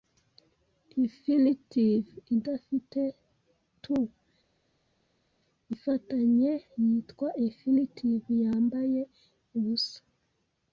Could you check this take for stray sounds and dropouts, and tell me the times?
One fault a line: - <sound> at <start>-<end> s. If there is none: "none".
none